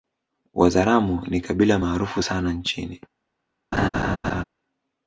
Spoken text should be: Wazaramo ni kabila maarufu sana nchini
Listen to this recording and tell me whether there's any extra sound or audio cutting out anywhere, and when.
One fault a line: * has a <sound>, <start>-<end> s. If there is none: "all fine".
* has a laugh, 3.7-4.4 s